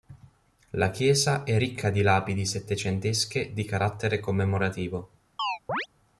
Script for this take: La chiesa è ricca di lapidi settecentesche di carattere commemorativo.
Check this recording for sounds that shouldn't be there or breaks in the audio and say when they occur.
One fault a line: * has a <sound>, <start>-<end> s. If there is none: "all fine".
* has a chirp, 5.4-5.9 s